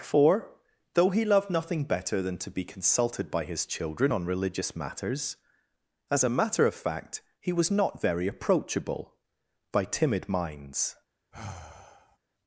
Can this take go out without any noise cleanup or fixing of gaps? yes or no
no